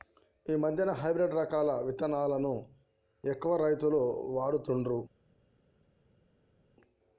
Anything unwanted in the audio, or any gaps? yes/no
no